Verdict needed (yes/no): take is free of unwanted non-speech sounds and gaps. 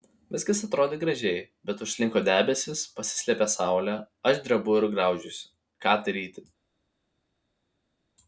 yes